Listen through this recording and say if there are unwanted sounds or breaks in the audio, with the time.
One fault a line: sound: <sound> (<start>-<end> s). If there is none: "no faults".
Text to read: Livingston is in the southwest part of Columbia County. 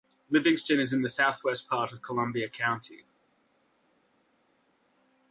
no faults